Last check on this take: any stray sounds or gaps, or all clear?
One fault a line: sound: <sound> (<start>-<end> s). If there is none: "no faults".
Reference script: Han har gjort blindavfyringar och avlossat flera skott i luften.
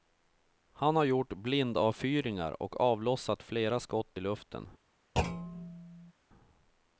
sound: thud (5.2-6.1 s)